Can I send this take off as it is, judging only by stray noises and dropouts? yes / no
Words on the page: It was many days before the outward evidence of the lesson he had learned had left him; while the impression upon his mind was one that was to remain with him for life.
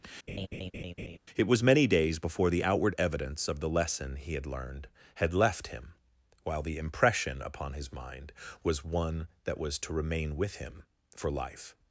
no